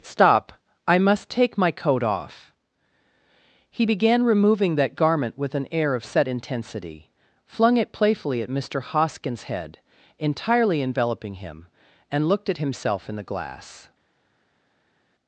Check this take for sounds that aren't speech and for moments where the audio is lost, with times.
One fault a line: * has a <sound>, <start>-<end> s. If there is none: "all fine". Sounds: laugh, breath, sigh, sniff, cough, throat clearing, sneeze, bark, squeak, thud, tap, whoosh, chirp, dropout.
all fine